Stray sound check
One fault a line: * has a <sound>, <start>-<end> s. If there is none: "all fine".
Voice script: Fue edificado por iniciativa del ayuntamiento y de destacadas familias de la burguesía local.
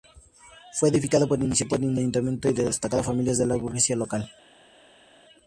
all fine